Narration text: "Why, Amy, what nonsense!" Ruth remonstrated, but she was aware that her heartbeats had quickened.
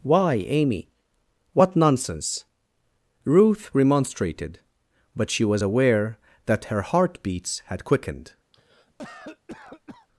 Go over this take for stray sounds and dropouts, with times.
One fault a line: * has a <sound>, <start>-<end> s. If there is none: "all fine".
* has a cough, 8.5-10.1 s